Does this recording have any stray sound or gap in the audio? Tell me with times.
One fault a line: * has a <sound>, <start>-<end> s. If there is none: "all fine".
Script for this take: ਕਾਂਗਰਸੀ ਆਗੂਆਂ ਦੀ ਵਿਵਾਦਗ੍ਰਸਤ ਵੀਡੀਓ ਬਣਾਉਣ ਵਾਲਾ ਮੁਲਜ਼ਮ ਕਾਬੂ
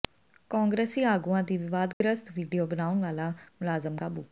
* has a dropout, 1.9-2.0 s